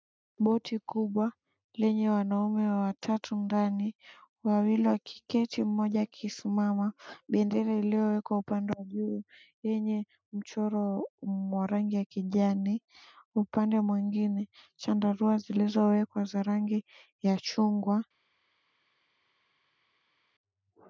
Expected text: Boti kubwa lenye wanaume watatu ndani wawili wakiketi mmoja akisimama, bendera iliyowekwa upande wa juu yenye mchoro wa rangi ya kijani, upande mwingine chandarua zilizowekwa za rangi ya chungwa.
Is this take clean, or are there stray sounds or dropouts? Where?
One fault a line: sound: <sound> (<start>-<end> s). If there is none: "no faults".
no faults